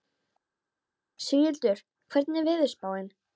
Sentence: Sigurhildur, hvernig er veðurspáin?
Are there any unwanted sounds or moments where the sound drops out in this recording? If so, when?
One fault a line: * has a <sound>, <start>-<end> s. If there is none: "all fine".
all fine